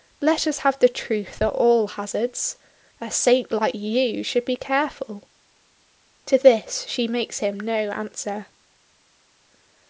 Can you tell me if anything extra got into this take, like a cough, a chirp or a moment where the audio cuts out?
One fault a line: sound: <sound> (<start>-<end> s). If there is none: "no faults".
no faults